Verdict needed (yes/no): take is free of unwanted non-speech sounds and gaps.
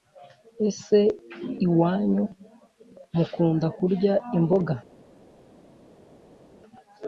yes